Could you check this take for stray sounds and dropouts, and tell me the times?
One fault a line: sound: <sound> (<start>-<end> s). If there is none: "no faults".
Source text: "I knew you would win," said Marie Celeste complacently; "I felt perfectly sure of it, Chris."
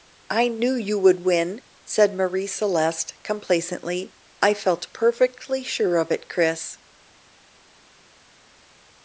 no faults